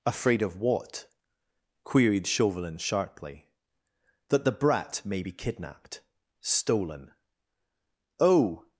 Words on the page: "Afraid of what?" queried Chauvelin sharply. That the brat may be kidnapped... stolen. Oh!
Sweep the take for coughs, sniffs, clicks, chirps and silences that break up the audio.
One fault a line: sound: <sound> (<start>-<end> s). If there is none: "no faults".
no faults